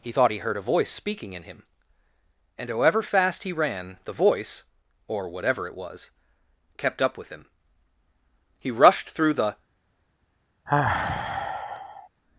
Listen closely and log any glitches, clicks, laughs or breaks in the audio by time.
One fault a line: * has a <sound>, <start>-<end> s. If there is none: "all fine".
* has a sigh, 10.7-12.1 s